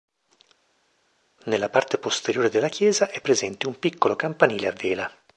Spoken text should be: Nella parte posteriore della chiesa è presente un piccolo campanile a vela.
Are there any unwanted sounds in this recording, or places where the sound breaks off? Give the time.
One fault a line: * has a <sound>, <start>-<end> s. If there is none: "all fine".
all fine